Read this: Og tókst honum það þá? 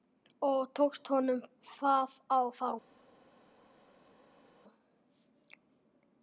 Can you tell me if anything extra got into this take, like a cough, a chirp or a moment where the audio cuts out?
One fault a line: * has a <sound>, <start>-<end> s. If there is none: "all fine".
all fine